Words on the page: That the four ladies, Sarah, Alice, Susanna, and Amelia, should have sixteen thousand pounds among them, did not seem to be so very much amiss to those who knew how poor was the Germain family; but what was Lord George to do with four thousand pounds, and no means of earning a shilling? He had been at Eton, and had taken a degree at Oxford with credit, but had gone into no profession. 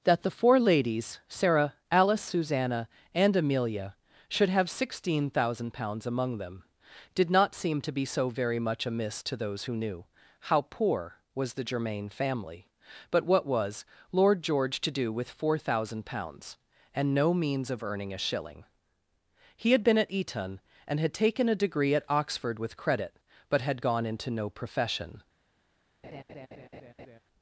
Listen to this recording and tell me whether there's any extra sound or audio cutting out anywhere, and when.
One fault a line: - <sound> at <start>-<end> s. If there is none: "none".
- laugh at 26.0-27.2 s